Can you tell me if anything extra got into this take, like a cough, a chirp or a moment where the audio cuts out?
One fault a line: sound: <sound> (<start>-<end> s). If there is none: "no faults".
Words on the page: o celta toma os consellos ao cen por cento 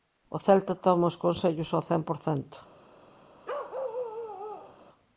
sound: bark (3.4-4.8 s)